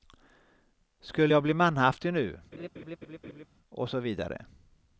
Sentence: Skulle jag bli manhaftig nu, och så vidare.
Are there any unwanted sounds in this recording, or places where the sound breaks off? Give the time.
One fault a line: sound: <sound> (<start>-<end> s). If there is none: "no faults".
sound: laugh (2.5-3.5 s)